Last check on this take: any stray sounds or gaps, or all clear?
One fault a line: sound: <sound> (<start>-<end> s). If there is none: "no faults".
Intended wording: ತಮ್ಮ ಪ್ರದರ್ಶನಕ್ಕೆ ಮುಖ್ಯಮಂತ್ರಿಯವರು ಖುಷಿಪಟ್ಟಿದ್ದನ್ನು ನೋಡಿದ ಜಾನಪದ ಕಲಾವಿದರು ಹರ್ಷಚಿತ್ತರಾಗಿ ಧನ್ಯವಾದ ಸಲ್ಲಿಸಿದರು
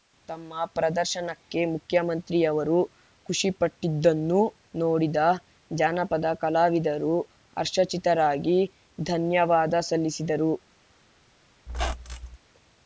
sound: squeak (11.7-12.4 s)